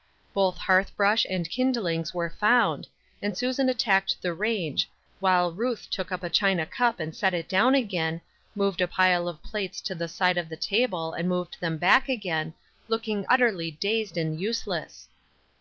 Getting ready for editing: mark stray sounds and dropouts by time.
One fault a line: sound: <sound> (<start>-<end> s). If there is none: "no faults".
no faults